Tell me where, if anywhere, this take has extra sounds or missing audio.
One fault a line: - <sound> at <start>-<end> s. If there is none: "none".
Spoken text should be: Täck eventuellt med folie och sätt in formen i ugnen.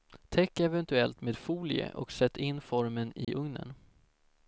- dropout at 3.2-3.3 s